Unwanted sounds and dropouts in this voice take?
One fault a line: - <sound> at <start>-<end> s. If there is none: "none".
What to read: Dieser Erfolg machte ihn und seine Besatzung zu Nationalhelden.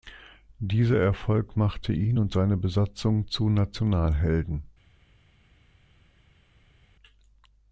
none